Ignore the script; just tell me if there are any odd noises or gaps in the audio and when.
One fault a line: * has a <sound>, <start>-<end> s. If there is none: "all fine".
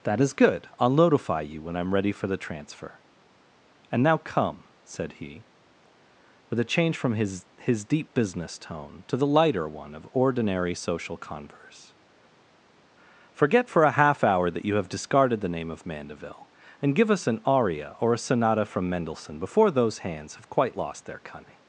all fine